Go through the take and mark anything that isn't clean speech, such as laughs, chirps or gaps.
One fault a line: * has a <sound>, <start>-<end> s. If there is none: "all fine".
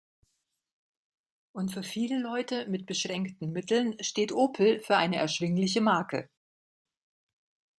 all fine